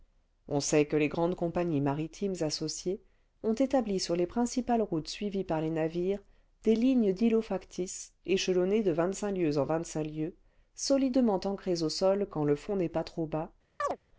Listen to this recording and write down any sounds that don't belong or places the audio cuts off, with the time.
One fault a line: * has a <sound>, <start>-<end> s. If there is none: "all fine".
* has a chirp, 13.8-14.0 s